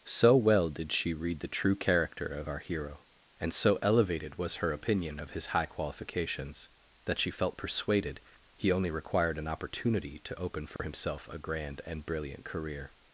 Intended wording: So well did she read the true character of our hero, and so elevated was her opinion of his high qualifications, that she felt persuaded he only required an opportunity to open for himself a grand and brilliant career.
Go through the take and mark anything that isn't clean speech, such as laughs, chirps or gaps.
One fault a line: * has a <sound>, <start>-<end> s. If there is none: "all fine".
* has a dropout, 10.8-10.8 s